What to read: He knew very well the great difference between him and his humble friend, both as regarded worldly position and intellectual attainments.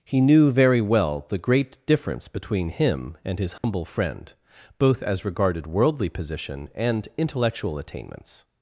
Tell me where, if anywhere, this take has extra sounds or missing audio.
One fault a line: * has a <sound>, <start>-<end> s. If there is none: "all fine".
* has a dropout, 3.6-3.6 s